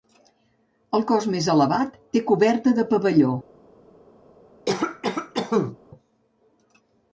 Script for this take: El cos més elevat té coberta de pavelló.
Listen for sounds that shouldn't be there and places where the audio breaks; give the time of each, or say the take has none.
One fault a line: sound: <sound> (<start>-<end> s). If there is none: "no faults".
sound: cough (4.7-5.8 s)